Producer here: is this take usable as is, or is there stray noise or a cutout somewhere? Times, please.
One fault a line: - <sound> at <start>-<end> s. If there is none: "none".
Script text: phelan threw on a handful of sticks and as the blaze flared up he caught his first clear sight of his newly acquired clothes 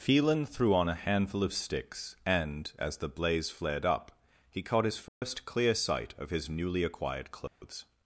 - dropout at 5.1-5.2 s
- dropout at 7.5-7.6 s